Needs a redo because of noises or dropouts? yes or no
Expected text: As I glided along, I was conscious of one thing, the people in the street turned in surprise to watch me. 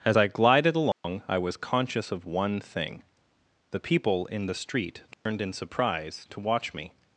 yes